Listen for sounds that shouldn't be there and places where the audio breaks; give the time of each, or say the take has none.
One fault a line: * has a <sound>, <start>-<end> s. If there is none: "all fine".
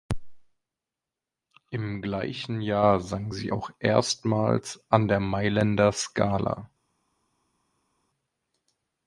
all fine